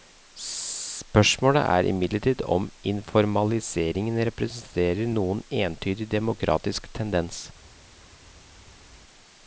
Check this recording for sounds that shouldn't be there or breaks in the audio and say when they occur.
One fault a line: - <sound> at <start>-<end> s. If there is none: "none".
none